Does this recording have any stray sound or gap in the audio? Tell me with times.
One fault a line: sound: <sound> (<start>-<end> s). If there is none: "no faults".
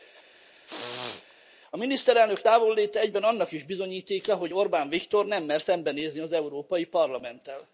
sound: throat clearing (0.3-1.3 s)